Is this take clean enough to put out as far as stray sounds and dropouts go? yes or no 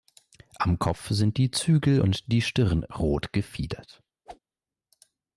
no